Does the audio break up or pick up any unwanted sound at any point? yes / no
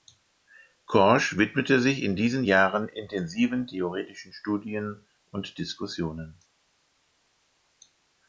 no